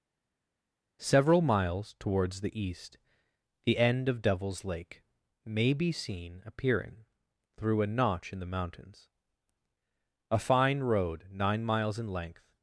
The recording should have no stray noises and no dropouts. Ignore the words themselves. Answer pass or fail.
pass